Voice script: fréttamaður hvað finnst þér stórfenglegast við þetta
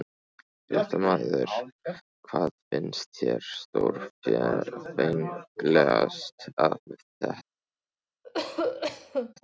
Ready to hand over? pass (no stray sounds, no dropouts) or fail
fail